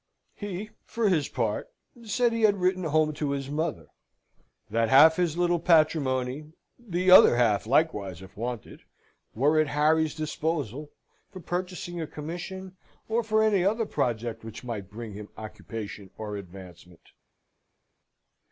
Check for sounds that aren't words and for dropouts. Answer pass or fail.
pass